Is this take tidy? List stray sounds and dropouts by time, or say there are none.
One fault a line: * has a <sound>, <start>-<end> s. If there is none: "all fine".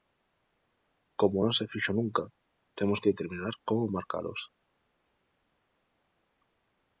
all fine